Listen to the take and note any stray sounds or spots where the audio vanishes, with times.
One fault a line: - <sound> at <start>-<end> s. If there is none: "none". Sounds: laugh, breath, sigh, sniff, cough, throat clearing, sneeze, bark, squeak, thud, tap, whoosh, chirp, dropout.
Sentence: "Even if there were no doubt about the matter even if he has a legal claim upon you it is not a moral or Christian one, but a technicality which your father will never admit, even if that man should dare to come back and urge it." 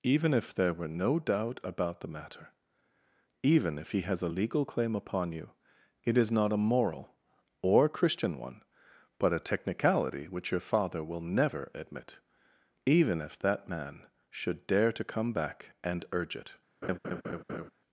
- laugh at 16.8-17.7 s